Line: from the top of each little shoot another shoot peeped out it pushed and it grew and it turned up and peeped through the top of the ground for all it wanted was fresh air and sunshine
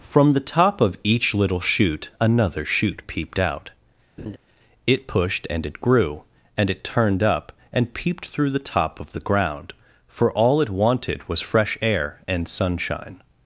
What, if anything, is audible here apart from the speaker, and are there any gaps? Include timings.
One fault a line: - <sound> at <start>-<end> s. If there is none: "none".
- laugh at 4.2-4.4 s